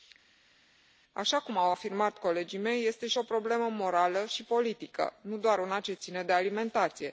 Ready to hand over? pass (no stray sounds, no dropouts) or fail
pass